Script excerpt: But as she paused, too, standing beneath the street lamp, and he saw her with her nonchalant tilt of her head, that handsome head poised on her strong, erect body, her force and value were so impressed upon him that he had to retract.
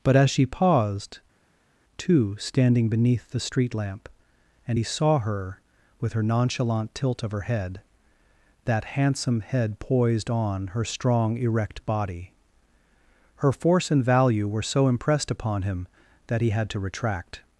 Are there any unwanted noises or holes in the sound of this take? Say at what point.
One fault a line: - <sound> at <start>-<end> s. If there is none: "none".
none